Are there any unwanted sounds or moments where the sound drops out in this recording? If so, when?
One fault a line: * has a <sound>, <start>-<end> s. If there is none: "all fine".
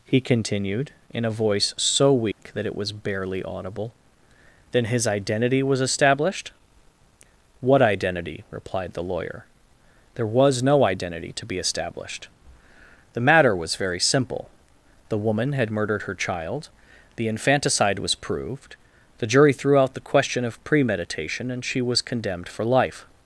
* has a dropout, 2.3-2.4 s